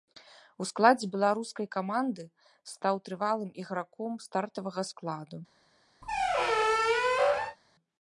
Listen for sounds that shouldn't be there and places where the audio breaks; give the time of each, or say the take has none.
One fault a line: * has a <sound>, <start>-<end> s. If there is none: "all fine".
* has a squeak, 6.0-7.6 s